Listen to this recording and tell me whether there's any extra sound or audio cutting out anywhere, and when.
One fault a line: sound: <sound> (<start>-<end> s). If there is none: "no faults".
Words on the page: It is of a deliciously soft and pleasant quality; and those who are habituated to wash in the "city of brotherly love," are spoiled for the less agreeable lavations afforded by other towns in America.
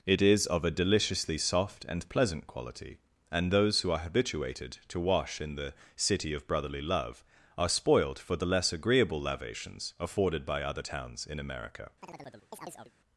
sound: chirp (12.0-12.9 s)